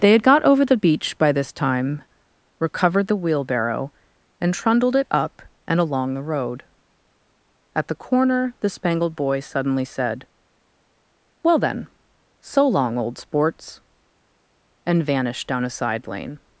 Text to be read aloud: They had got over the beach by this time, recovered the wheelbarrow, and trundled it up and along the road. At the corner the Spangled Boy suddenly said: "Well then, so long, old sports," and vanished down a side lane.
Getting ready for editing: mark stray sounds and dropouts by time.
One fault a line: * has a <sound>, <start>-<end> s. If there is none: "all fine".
all fine